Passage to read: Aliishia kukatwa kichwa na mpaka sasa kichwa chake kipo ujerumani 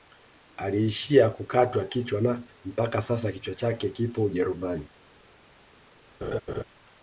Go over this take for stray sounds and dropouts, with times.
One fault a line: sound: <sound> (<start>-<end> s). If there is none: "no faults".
sound: laugh (6.2-6.6 s)